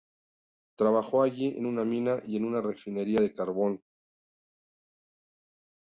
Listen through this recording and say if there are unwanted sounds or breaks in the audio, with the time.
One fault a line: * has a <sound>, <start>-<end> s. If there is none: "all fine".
all fine